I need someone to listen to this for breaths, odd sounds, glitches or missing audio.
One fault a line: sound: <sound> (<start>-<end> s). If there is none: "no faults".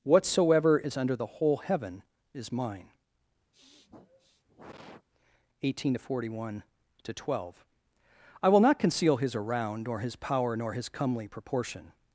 sound: sniff (3.5-5.1 s)